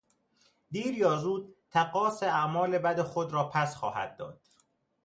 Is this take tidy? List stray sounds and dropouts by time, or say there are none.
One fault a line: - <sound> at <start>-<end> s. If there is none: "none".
none